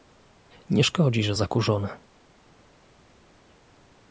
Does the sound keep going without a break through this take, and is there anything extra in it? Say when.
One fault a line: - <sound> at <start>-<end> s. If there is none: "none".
none